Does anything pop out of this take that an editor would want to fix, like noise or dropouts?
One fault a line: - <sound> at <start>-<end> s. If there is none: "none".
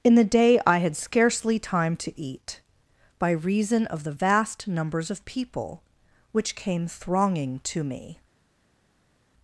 none